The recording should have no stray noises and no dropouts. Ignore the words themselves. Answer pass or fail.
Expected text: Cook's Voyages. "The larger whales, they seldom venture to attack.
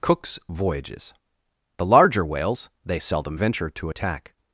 pass